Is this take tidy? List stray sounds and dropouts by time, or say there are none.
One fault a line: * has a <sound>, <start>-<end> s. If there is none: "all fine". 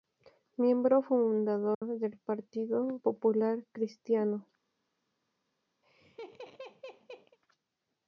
* has a dropout, 1.7-1.8 s
* has a laugh, 5.8-7.4 s